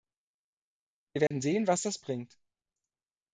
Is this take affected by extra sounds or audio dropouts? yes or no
yes